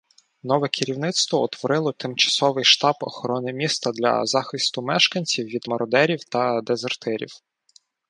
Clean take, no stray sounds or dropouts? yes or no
yes